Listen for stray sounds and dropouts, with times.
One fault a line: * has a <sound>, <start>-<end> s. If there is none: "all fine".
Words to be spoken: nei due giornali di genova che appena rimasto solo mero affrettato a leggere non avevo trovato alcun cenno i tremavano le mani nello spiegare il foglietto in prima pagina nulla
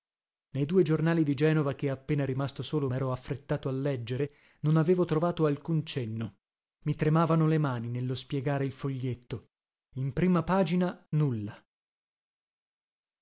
all fine